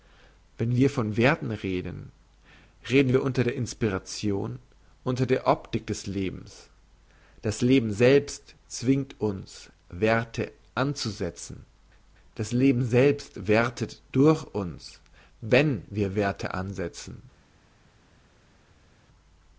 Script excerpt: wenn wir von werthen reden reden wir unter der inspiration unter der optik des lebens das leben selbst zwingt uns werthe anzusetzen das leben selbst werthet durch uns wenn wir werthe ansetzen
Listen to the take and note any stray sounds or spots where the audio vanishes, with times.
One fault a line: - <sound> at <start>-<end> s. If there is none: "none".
none